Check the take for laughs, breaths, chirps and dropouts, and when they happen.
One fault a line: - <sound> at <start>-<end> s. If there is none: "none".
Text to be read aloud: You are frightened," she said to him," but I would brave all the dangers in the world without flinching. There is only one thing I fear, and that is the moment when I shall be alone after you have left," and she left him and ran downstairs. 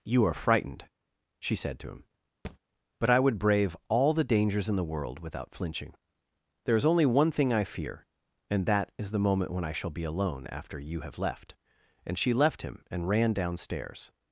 - thud at 2.4-2.6 s